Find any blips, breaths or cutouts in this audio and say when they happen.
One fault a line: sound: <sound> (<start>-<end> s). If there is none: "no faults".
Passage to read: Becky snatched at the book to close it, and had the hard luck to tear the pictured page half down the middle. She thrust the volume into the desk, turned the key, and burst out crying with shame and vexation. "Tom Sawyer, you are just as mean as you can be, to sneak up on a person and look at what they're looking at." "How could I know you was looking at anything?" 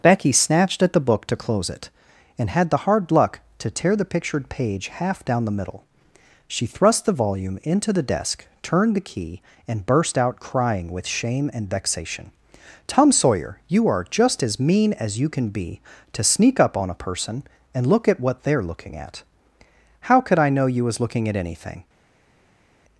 no faults